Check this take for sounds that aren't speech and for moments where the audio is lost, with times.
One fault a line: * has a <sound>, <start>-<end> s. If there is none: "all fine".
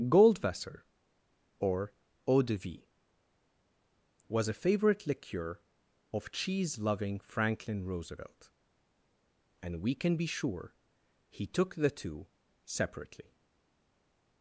all fine